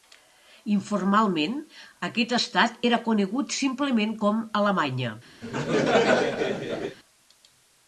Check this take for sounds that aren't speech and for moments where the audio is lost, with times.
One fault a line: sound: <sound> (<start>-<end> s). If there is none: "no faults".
sound: laugh (5.4-7.0 s)